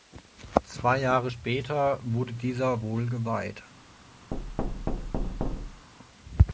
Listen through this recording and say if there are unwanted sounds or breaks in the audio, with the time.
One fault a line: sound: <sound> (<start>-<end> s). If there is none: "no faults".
sound: thud (4.3-5.9 s)